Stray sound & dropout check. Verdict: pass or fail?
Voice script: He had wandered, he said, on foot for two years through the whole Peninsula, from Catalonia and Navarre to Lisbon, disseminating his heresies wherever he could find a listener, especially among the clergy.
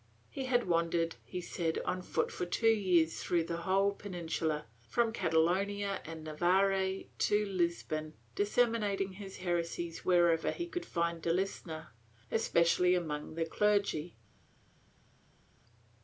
pass